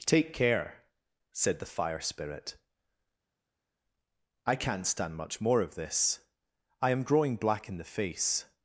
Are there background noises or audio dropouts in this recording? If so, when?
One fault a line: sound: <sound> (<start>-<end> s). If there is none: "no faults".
no faults